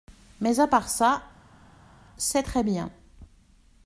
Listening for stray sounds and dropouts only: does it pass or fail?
pass